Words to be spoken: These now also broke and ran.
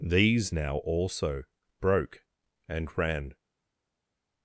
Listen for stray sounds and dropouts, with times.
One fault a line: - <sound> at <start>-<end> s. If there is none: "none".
none